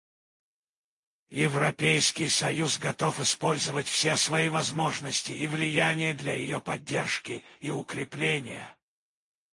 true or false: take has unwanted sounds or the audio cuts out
false